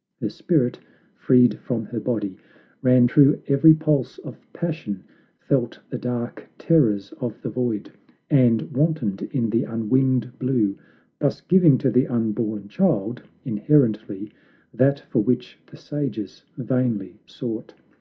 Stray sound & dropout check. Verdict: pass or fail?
pass